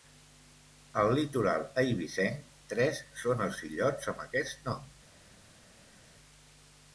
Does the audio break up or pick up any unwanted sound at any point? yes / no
no